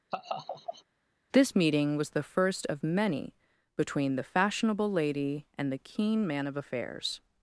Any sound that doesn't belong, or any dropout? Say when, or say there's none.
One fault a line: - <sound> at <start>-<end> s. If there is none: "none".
- laugh at 0.1-0.8 s